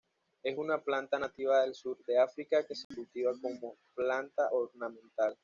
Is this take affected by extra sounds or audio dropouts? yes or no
yes